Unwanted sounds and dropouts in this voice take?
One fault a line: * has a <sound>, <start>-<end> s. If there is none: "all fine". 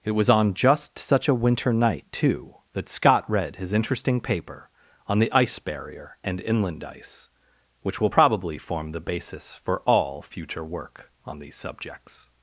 all fine